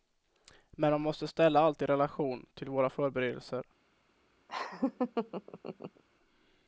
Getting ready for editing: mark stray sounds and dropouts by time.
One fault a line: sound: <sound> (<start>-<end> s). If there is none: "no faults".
sound: laugh (4.5-6.0 s)